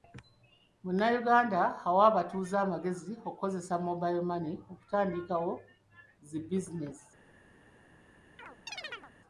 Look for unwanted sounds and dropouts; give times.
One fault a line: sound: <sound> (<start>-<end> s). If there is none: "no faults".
sound: chirp (8.4-9.1 s)